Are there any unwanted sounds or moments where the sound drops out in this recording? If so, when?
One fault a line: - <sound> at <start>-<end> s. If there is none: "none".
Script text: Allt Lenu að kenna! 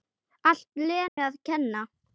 - dropout at 1.1-1.2 s